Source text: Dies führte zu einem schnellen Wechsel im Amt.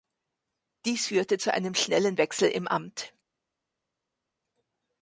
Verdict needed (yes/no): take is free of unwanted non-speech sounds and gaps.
yes